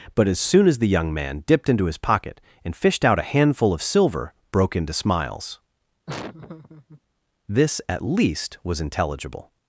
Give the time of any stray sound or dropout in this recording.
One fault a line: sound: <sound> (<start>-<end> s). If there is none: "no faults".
sound: laugh (6.1-7.0 s)